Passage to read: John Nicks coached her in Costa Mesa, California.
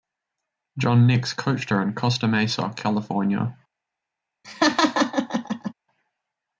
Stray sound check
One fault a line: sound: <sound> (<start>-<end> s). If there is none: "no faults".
sound: laugh (4.4-5.7 s)